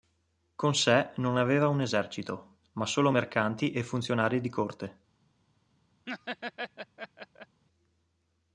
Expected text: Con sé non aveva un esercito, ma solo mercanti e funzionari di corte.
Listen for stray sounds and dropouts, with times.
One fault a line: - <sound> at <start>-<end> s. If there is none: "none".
- laugh at 6.1-7.6 s